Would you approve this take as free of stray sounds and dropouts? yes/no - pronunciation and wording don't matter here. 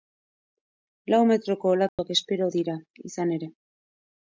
no